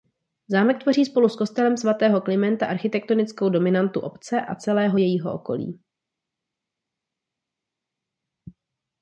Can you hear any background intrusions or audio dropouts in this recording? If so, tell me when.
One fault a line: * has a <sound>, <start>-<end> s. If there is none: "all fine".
all fine